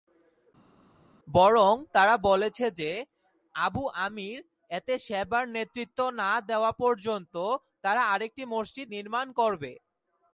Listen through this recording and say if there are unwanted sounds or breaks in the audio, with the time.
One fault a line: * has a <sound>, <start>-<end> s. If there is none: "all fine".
all fine